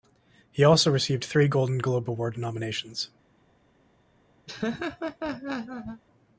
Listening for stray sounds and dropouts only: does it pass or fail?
fail